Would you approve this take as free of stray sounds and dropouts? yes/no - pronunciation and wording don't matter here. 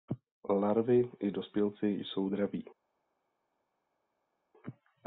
yes